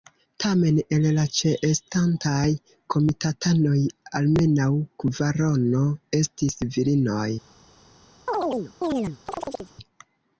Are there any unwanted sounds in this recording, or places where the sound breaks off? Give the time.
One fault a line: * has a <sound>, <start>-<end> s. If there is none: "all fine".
* has a chirp, 8.3-9.7 s